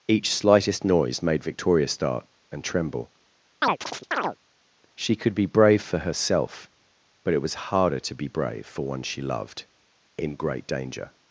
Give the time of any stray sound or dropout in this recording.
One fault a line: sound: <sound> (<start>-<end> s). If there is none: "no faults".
sound: chirp (3.6-4.4 s)